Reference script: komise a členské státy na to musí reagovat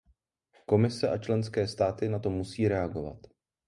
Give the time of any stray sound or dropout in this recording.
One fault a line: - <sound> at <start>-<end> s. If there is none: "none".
none